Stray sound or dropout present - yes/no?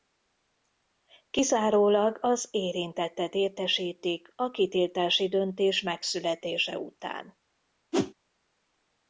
yes